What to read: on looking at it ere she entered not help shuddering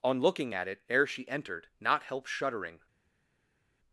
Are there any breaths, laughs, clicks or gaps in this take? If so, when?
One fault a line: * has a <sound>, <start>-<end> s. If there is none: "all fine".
all fine